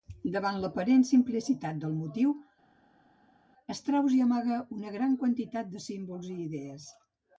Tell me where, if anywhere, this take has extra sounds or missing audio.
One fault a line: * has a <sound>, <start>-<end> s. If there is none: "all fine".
all fine